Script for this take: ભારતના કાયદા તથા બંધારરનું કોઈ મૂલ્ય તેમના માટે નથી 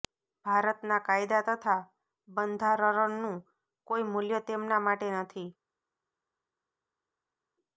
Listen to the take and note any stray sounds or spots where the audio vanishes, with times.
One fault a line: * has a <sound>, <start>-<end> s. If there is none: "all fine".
all fine